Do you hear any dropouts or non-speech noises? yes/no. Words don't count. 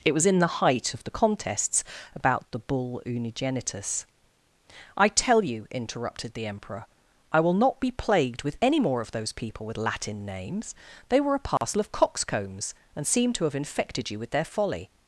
yes